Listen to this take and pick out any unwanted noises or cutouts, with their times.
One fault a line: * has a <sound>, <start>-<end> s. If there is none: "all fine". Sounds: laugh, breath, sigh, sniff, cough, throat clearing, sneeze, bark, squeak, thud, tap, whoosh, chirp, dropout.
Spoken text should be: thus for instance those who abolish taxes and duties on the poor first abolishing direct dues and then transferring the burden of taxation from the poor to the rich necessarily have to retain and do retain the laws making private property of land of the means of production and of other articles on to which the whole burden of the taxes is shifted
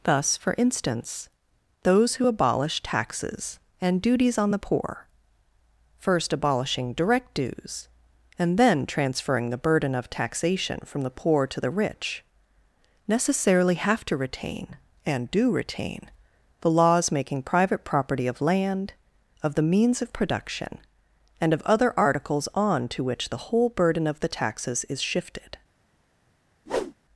* has a whoosh, 26.7-26.9 s